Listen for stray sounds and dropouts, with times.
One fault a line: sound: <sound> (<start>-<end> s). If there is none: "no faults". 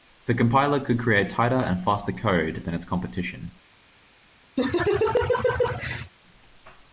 sound: laugh (4.6-6.1 s)